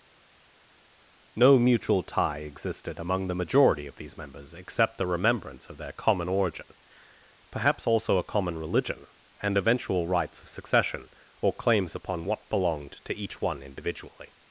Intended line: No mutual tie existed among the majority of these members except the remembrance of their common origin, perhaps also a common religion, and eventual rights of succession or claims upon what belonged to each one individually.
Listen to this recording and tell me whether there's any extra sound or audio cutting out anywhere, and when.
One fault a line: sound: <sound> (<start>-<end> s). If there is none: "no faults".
no faults